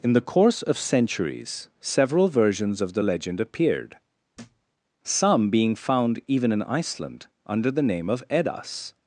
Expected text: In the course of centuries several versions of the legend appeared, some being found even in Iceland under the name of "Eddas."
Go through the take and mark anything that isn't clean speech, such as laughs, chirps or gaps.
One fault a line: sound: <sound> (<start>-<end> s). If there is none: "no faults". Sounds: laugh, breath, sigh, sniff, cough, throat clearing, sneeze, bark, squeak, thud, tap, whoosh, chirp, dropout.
sound: thud (4.3-4.7 s)